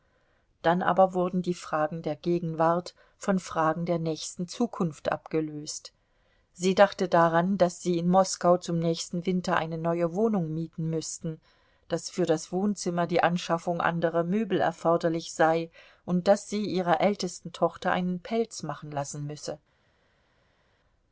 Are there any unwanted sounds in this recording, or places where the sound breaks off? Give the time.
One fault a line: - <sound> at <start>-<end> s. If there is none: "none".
none